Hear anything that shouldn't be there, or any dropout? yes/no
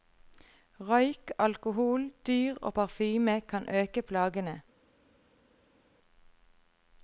no